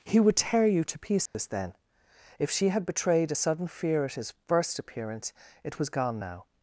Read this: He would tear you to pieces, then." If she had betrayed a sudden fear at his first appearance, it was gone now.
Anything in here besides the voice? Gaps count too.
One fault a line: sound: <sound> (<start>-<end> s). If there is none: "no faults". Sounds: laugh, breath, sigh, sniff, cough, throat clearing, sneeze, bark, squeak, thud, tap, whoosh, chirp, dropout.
sound: dropout (1.3-1.3 s)